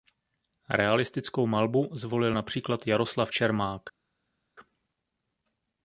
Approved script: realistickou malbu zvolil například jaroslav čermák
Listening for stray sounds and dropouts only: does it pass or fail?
pass